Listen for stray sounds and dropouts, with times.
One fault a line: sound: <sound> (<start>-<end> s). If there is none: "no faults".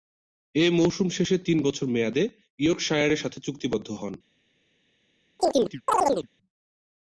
sound: chirp (5.4-6.3 s)